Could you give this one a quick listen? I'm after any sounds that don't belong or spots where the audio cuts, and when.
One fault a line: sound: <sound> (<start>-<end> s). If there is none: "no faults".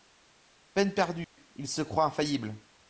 sound: dropout (1.2-1.4 s)